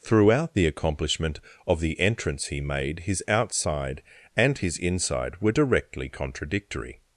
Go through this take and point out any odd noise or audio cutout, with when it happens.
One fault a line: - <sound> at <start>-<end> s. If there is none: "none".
none